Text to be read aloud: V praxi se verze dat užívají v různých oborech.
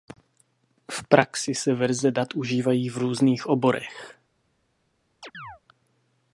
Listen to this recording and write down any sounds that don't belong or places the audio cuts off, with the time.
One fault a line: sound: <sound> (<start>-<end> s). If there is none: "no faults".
sound: chirp (5.2-5.6 s)